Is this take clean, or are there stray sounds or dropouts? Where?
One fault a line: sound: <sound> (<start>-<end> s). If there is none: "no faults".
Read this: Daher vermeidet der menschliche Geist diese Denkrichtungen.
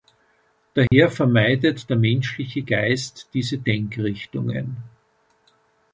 sound: dropout (0.9-0.9 s)